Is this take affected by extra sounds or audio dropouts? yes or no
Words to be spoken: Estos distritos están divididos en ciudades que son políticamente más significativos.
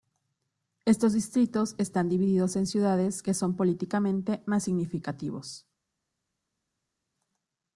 no